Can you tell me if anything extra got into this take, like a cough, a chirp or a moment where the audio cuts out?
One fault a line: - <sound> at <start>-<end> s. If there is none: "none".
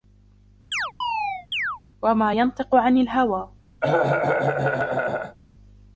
- chirp at 0.7-1.8 s
- cough at 3.8-5.4 s